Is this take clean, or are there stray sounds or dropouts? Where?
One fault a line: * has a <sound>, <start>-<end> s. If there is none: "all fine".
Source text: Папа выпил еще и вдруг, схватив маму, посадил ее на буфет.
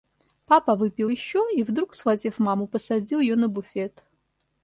all fine